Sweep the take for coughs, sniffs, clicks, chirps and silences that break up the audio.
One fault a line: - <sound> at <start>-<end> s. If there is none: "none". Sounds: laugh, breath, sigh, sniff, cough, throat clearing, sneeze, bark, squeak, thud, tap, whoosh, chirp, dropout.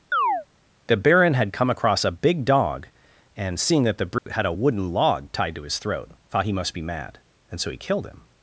- chirp at 0.1-0.5 s
- dropout at 4.2-4.3 s